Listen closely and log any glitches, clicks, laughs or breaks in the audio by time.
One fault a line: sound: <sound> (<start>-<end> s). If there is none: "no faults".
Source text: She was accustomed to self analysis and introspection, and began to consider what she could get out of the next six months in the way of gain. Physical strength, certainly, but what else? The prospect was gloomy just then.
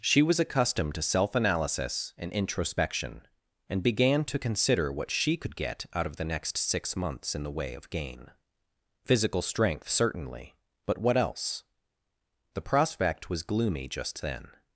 no faults